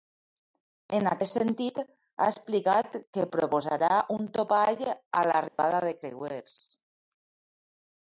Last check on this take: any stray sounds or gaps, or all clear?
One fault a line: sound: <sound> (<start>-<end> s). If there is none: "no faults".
sound: dropout (5.5-5.6 s)